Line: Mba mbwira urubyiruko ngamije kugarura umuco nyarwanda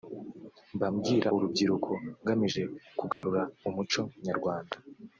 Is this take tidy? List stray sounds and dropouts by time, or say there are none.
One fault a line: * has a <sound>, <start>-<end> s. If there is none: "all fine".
* has a dropout, 3.1-3.2 s